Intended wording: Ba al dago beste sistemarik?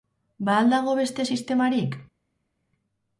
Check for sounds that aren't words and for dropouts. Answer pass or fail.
pass